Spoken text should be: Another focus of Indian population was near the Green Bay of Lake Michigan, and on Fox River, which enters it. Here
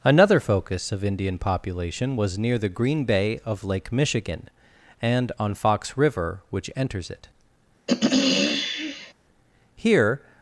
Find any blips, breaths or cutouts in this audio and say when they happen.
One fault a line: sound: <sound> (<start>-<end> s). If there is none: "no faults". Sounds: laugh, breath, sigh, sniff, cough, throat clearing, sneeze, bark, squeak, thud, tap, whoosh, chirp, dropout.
sound: throat clearing (7.9-9.1 s)